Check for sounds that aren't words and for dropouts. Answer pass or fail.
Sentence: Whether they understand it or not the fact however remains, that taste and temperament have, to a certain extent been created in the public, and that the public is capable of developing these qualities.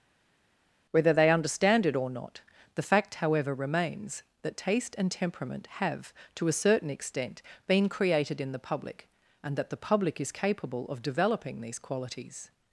pass